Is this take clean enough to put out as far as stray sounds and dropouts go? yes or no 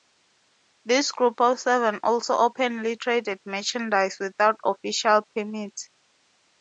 yes